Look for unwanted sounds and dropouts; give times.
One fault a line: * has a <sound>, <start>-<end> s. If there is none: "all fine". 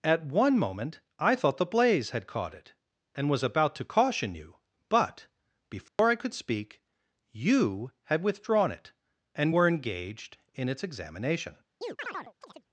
* has a dropout, 5.9-6.0 s
* has a chirp, 11.8-12.6 s